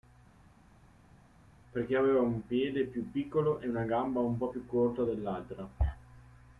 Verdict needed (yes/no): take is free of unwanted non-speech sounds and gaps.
yes